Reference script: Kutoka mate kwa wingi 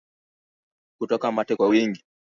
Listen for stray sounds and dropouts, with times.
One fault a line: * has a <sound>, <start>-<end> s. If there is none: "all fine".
all fine